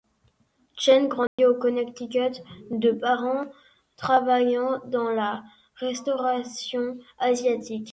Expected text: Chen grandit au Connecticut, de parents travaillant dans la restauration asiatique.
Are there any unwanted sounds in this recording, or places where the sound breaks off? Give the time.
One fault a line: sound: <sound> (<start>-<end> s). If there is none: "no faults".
sound: dropout (1.3-1.4 s)